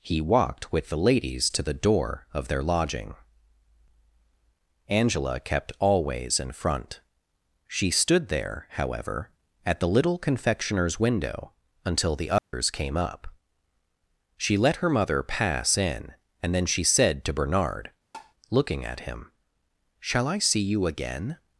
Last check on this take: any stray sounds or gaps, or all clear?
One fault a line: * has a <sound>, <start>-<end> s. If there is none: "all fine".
* has a dropout, 12.4-12.5 s
* has a tap, 18.1-18.3 s